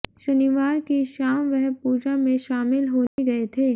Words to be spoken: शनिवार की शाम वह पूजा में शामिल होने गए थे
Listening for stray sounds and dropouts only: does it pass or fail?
fail